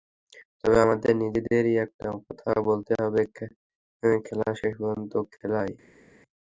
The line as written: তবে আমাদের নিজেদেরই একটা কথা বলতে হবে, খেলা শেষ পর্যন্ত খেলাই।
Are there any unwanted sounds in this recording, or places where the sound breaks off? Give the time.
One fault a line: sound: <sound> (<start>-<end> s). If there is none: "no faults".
no faults